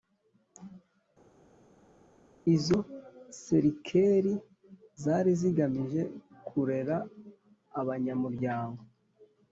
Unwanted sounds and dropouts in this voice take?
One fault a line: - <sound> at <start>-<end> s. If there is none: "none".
none